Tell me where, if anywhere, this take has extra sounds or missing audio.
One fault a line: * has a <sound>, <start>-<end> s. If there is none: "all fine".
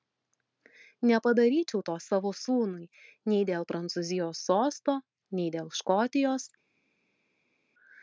all fine